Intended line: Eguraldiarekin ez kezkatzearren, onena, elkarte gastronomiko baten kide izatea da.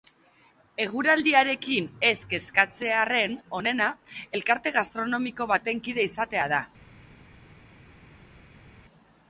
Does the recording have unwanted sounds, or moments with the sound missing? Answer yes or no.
no